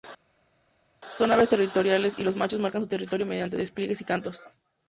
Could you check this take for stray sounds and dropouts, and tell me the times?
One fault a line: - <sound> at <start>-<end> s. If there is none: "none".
none